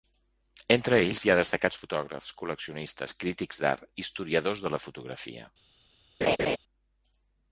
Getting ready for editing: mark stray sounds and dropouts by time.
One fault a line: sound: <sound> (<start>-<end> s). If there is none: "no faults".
sound: laugh (6.2-6.6 s)